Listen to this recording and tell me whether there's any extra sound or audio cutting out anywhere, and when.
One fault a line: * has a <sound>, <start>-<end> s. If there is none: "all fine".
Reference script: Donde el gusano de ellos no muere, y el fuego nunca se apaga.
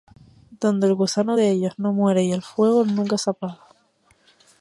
all fine